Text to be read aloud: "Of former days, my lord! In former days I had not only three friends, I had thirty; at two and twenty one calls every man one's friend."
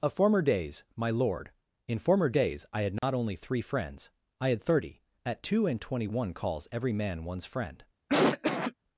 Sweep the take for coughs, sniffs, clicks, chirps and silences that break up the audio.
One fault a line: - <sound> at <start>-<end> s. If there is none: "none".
- dropout at 3.0-3.0 s
- cough at 8.1-8.7 s